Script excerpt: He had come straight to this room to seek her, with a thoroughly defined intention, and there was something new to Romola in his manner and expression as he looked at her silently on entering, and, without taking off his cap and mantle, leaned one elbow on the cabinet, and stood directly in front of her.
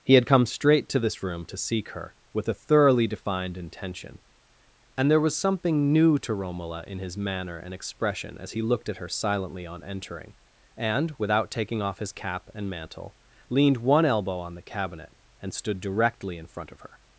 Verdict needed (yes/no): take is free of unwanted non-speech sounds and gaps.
yes